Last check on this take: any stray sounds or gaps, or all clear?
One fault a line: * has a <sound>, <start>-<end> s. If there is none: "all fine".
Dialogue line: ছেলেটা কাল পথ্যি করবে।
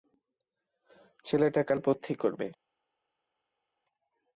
all fine